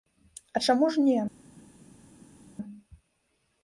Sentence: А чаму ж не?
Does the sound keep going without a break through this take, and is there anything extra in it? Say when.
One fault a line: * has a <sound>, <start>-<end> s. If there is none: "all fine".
all fine